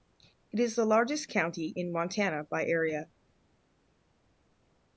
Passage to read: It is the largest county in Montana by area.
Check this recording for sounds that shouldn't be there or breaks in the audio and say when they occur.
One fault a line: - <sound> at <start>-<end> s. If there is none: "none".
none